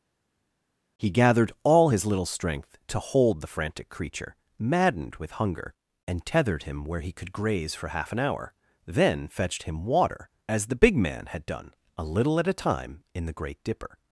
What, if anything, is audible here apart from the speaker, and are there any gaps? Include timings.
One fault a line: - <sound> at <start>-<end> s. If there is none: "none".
none